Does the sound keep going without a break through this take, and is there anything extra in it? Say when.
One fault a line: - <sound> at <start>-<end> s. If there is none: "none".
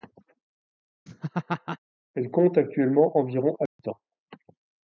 - laugh at 1.1-1.8 s
- dropout at 3.7-3.8 s